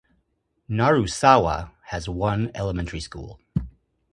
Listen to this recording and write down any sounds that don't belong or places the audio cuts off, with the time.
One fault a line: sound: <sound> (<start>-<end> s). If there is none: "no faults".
no faults